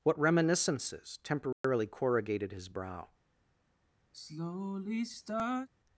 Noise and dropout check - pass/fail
fail